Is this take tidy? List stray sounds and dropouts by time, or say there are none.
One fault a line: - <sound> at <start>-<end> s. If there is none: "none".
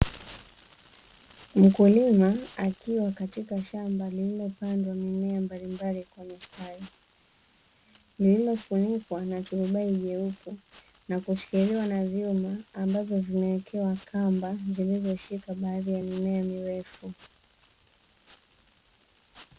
none